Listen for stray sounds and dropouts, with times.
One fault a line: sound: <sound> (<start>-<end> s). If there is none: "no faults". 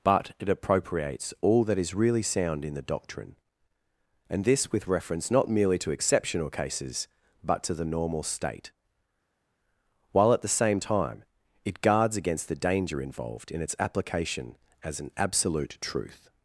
no faults